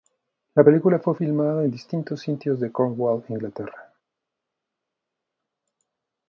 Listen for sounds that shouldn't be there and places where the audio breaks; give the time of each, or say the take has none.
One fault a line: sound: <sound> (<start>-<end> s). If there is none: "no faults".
no faults